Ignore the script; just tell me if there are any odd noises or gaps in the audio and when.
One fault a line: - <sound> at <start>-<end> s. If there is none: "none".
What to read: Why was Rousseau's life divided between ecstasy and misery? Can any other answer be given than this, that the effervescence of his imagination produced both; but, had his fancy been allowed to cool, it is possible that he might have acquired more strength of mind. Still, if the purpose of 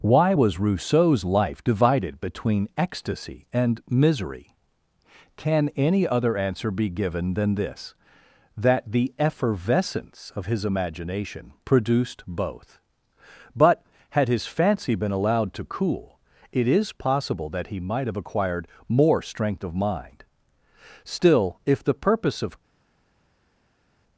none